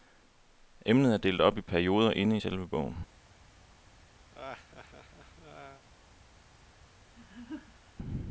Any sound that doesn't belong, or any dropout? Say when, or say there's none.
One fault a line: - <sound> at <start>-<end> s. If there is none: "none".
- laugh at 4.3-5.9 s
- laugh at 7.1-7.9 s